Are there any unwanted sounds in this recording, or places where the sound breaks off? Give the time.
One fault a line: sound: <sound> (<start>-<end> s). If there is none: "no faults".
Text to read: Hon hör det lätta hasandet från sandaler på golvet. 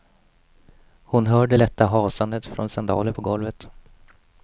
no faults